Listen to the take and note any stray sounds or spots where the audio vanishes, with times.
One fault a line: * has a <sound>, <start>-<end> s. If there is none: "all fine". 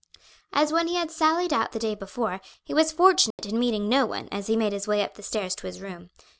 * has a dropout, 3.3-3.4 s